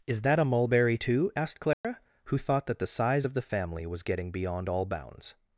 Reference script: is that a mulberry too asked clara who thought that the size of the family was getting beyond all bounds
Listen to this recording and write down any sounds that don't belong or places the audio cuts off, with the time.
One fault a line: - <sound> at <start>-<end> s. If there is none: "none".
- dropout at 1.7-1.8 s